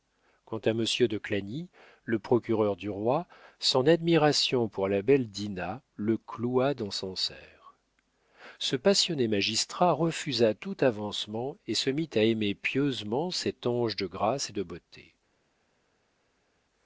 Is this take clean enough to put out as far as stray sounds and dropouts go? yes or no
yes